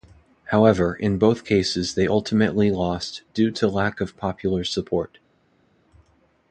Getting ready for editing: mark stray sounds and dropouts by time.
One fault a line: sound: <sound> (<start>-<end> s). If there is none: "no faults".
no faults